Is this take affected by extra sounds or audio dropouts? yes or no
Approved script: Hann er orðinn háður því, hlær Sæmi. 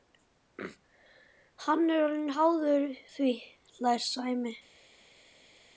no